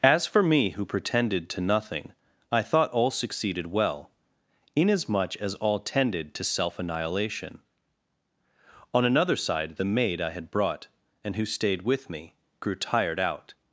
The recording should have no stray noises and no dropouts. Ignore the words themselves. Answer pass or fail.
pass